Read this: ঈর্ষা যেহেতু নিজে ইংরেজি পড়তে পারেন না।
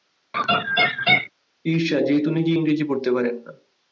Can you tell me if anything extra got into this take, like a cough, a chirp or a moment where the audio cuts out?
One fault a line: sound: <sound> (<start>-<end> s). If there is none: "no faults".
sound: laugh (0.3-1.3 s)